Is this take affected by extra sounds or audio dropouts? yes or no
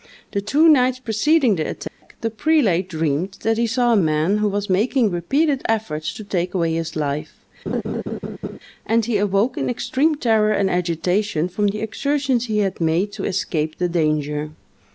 yes